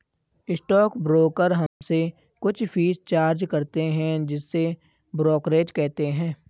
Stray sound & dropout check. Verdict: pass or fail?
fail